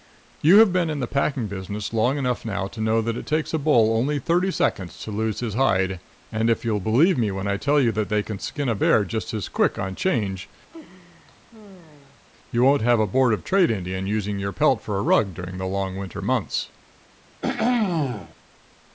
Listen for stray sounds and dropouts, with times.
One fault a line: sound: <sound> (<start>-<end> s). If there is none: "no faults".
sound: laugh (10.7-12.2 s)
sound: throat clearing (17.4-18.3 s)